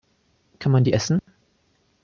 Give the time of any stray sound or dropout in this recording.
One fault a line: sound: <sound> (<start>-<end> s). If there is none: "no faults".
sound: dropout (1.2-1.3 s)